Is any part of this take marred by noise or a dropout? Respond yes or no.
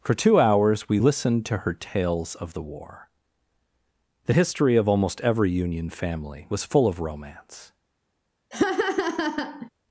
yes